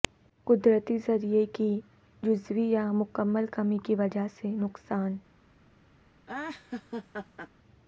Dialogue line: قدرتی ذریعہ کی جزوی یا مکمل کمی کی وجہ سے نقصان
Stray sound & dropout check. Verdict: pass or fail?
fail